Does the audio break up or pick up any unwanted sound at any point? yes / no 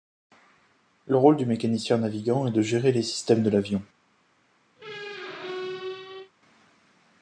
yes